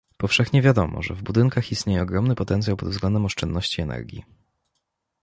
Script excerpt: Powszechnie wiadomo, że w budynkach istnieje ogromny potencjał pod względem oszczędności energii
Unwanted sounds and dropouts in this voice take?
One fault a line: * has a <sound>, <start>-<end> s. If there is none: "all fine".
all fine